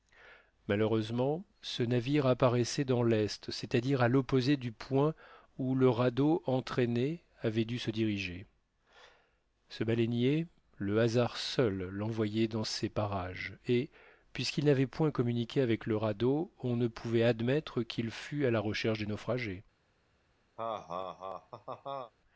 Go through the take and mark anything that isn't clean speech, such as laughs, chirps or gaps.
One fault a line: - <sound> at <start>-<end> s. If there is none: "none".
- laugh at 20.6-22.1 s